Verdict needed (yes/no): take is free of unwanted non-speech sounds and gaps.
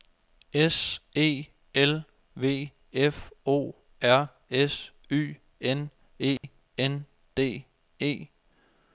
no